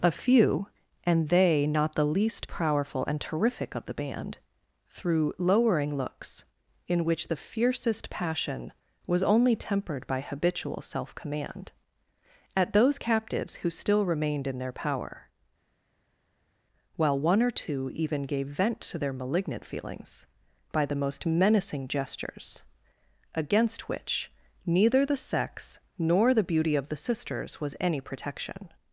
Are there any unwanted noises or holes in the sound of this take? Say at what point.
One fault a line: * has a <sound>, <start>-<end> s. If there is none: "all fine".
all fine